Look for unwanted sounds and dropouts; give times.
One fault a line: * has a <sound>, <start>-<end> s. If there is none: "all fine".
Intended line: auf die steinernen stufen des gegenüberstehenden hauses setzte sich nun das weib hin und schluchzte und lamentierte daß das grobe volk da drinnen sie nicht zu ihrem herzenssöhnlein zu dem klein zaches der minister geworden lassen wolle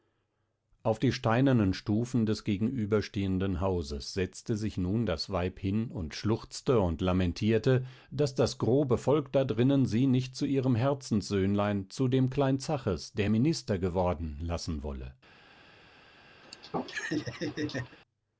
* has a laugh, 16.4-18.0 s